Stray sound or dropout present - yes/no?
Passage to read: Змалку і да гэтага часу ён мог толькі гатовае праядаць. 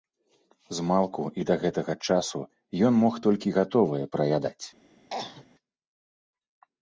yes